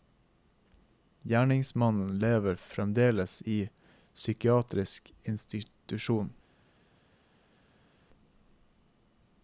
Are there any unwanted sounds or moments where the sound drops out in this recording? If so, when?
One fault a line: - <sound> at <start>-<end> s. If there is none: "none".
none